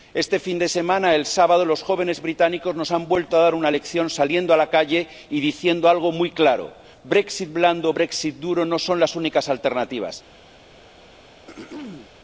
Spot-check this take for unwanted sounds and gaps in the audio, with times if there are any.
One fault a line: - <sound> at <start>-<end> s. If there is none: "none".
- throat clearing at 11.5-12.1 s